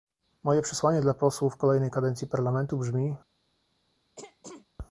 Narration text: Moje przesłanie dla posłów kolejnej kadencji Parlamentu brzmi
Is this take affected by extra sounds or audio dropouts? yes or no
yes